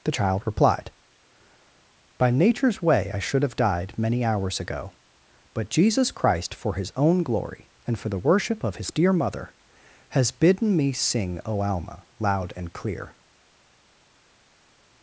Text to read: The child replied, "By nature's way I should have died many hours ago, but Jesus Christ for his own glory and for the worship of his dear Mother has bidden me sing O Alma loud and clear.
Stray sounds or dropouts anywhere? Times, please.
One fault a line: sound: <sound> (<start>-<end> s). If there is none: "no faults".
no faults